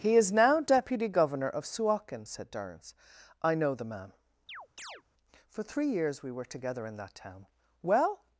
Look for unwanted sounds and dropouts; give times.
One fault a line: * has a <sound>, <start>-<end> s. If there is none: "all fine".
* has a chirp, 4.5-5.0 s